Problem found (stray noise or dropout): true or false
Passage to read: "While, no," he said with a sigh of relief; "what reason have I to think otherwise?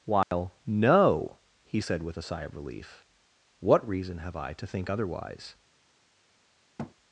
true